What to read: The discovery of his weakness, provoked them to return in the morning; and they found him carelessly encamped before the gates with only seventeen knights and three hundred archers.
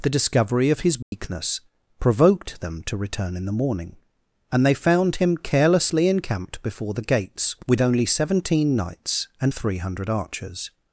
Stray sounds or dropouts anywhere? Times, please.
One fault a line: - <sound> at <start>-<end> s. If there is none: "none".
- dropout at 1.0-1.1 s